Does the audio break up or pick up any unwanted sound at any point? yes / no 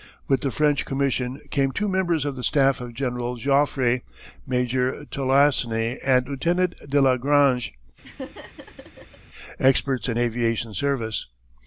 yes